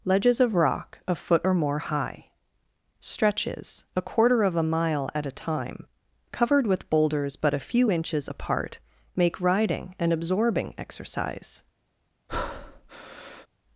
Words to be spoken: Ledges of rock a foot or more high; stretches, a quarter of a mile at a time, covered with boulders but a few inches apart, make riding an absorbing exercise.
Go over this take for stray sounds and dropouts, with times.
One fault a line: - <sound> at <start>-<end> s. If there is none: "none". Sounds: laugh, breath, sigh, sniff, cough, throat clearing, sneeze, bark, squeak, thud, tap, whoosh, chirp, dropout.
- breath at 12.3-13.5 s